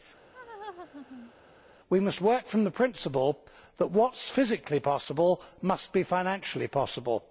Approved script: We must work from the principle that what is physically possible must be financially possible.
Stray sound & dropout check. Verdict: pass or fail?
fail